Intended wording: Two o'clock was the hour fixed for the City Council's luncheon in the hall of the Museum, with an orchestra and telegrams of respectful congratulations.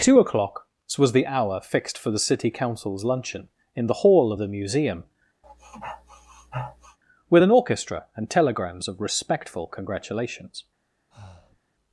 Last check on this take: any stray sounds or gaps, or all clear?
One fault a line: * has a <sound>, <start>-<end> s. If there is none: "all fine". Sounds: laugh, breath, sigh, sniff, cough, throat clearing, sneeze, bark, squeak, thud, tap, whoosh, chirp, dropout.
* has a sniff, 5.4-7.0 s
* has a breath, 11.1-11.6 s